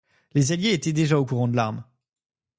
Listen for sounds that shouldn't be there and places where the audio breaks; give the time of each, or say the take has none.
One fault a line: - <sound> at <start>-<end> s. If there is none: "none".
none